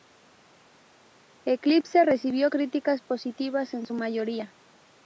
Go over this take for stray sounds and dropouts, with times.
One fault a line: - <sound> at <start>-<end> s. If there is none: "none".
none